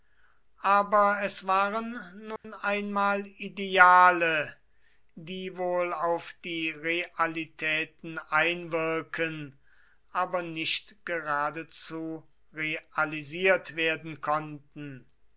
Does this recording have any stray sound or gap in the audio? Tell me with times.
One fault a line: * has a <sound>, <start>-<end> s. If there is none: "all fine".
* has a dropout, 2.4-2.4 s